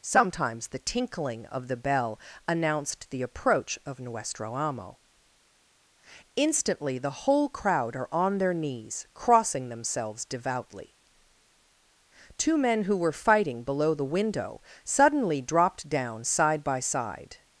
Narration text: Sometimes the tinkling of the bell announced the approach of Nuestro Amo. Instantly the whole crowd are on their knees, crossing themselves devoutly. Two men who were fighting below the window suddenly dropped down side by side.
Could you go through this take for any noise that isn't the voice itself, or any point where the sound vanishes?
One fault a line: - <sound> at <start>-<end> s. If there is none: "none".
none